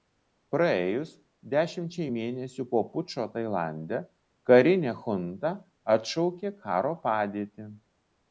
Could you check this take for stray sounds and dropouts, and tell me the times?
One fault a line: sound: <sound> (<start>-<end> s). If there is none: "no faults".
no faults